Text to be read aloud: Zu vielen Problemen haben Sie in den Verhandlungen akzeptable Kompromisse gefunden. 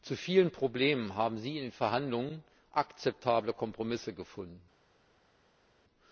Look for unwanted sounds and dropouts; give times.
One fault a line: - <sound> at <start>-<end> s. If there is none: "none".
none